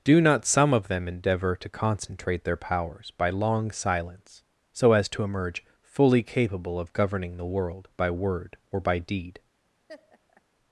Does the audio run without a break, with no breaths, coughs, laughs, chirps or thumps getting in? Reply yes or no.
no